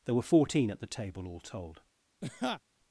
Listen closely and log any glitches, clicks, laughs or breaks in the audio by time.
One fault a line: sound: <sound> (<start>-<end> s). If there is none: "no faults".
sound: laugh (2.2-2.6 s)